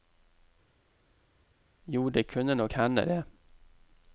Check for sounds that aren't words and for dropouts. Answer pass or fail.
pass